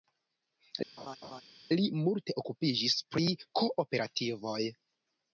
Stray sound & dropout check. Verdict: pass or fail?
fail